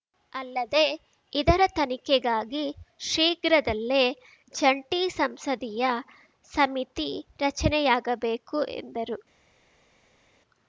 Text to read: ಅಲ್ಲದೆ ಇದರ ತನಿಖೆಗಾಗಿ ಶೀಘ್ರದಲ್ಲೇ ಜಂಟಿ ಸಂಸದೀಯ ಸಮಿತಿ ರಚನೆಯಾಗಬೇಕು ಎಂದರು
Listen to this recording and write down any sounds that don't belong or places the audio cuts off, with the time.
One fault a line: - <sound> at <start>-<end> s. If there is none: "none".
none